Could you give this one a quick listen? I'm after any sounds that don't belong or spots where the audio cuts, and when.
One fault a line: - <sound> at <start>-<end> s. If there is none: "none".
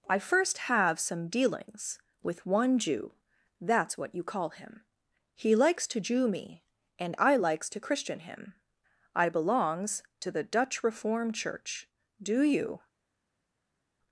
none